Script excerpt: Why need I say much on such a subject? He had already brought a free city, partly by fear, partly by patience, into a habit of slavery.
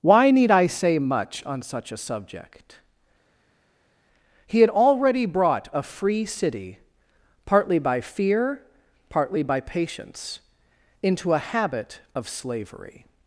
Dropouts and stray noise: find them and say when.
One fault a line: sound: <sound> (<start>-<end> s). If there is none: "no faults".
no faults